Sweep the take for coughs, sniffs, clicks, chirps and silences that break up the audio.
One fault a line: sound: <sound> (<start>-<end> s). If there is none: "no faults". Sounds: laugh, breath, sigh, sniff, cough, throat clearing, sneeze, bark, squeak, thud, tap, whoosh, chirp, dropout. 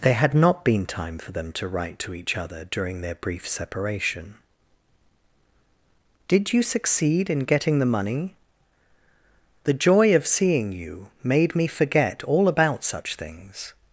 no faults